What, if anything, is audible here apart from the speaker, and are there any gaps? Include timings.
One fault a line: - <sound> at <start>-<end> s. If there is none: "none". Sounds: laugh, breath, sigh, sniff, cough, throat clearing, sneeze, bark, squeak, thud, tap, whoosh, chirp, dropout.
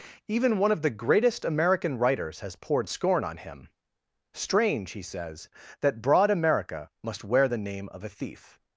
none